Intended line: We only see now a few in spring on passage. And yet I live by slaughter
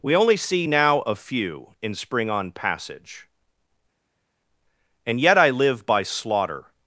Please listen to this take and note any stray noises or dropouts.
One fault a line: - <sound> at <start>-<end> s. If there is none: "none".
none